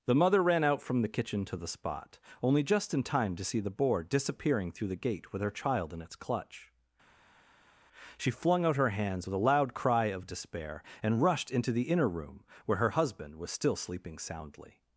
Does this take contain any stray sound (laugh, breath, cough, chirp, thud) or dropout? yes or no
no